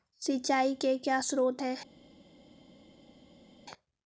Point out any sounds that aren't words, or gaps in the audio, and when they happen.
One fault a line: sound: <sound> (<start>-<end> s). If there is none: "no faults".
no faults